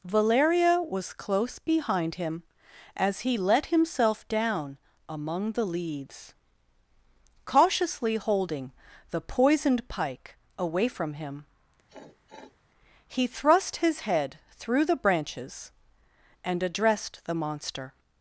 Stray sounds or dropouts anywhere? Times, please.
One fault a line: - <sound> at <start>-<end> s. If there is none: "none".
- sniff at 11.9-12.6 s